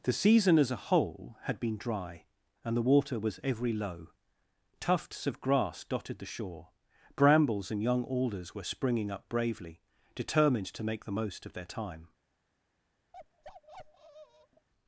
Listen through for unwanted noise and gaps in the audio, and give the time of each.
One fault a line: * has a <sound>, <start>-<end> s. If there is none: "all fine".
* has a bark, 13.1-14.7 s